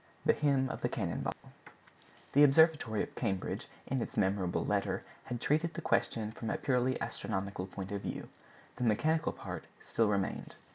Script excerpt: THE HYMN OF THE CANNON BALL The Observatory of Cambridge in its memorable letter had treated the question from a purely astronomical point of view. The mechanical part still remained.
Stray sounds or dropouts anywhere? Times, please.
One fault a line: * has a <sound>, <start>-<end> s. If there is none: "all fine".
* has a dropout, 1.3-1.4 s